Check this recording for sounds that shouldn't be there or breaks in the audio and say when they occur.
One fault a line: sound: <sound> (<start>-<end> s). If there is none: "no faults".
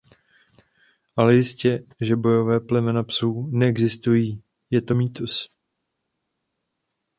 no faults